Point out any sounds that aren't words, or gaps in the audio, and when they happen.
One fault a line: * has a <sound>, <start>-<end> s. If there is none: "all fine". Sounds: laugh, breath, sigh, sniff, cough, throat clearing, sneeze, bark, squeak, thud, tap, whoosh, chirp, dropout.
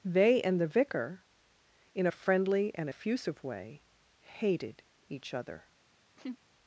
* has a laugh, 6.2-6.4 s